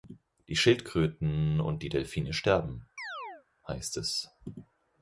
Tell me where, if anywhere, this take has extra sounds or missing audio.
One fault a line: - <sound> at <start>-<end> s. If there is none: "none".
- chirp at 3.0-3.5 s